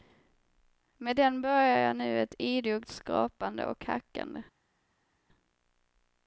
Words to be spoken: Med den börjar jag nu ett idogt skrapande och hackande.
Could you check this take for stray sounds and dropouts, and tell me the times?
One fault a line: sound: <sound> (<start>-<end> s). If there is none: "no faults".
no faults